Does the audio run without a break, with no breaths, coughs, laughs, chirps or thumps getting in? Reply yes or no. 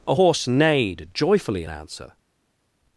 yes